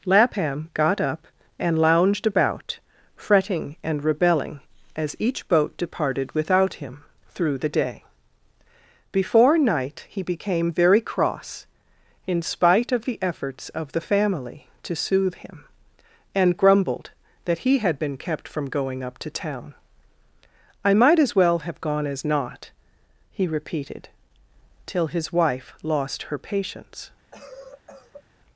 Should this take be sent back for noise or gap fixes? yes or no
yes